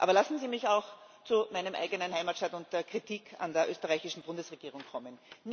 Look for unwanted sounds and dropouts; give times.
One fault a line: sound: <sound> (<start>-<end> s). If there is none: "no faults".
no faults